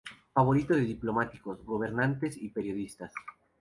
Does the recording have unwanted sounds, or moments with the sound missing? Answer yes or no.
no